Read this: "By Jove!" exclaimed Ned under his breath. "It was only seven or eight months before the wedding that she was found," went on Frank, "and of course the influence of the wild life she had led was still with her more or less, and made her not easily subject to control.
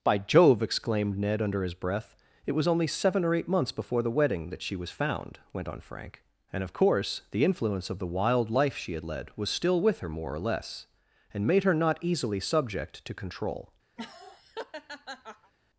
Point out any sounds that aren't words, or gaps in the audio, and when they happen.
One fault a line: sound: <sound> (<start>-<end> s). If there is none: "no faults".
sound: laugh (14.0-15.5 s)